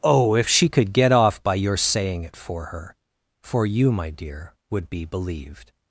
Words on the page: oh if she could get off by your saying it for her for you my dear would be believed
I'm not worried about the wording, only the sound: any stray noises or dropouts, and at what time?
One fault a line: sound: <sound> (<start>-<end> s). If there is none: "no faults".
no faults